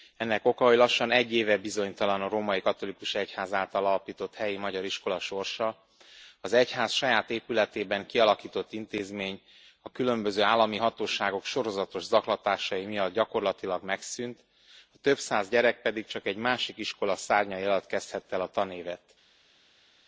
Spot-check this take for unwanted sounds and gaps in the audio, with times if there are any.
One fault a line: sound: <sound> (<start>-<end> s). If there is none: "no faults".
no faults